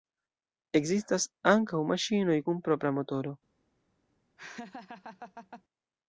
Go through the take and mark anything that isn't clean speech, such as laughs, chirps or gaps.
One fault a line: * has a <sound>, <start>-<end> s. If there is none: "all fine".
* has a laugh, 4.4-5.6 s